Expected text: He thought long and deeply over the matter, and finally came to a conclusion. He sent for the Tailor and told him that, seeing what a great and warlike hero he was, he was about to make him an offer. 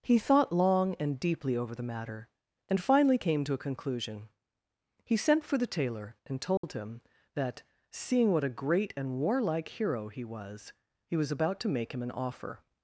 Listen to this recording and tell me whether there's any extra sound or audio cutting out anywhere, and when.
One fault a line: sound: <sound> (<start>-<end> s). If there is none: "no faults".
sound: dropout (6.6-6.6 s)